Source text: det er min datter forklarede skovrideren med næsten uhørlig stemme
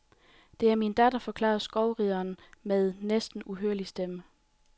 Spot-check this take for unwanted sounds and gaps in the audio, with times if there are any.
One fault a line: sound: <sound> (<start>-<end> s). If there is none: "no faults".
no faults